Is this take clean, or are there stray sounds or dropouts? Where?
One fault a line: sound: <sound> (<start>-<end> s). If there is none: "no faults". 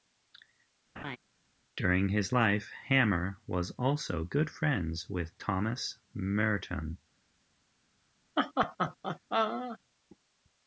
sound: laugh (1.0-1.2 s)
sound: laugh (8.4-9.8 s)